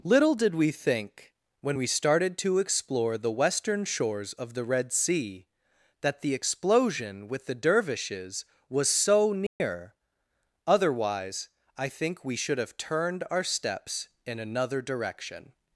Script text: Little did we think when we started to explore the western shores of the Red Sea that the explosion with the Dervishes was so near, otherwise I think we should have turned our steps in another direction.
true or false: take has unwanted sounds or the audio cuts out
true